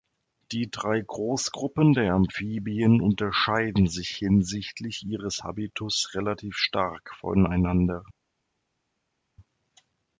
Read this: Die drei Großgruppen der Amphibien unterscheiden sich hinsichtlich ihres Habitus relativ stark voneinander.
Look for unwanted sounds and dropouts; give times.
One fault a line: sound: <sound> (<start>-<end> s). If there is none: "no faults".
no faults